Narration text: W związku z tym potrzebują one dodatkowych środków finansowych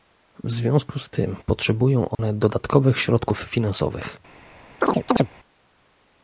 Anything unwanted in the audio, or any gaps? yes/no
yes